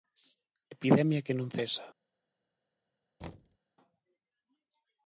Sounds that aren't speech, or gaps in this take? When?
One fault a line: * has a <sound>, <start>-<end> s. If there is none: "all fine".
* has a thud, 3.2-3.6 s